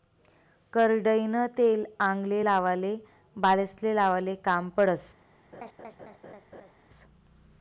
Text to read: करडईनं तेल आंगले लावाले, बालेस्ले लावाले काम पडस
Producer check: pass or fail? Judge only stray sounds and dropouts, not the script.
fail